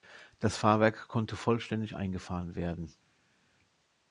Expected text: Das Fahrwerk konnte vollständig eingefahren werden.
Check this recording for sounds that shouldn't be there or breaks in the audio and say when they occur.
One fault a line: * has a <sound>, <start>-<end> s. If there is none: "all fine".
all fine